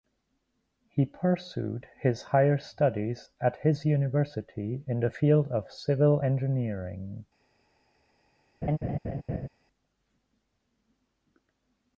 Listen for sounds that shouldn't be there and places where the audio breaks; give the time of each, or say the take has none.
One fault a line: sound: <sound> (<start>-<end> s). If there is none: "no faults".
sound: laugh (8.6-9.5 s)